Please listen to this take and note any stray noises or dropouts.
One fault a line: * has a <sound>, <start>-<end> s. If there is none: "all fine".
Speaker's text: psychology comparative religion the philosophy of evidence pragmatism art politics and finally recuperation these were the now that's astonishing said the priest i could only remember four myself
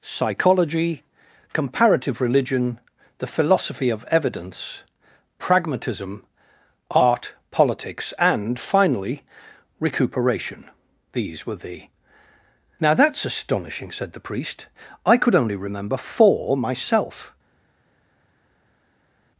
all fine